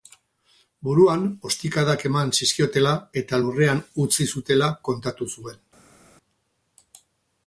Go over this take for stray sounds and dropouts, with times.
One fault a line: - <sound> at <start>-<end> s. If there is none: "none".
none